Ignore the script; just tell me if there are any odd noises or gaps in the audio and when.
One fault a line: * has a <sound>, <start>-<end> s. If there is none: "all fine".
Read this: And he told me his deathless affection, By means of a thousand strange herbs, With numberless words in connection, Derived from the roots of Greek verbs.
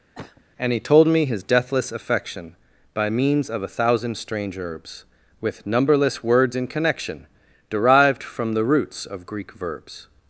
* has a cough, 0.2-0.4 s